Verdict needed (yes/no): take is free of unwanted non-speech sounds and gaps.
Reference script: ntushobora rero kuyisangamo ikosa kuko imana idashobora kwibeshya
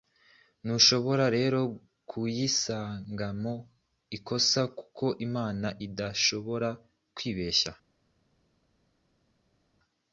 yes